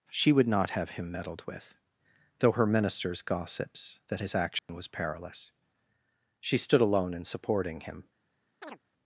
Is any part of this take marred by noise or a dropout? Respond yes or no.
yes